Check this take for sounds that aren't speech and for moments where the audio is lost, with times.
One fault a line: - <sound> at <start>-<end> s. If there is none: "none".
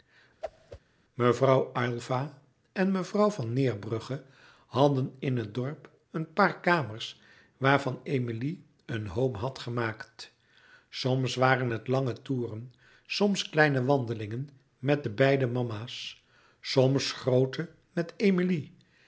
- whoosh at 0.4-0.8 s